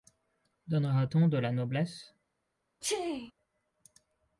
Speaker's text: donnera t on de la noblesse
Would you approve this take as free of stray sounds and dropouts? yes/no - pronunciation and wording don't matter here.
no